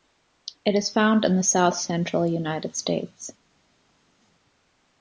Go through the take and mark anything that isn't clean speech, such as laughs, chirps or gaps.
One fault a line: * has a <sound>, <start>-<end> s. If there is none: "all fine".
all fine